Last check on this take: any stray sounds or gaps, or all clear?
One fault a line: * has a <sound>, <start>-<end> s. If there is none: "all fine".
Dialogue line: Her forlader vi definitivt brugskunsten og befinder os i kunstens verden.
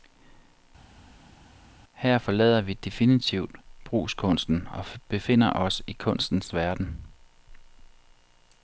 all fine